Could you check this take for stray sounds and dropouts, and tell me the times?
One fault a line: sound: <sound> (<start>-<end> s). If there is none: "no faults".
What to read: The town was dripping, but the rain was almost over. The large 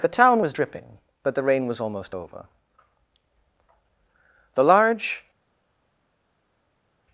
no faults